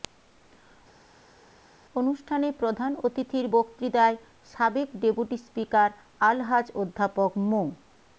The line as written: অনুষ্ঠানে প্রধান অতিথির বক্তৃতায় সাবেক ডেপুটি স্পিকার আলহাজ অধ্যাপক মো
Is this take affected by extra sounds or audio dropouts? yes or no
no